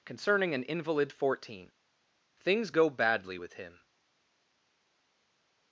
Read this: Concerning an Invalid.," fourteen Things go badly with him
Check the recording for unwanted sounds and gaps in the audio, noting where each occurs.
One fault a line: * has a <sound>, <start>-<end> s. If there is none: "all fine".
all fine